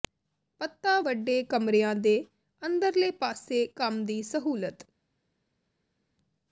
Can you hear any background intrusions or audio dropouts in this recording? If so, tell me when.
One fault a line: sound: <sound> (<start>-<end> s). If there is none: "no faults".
no faults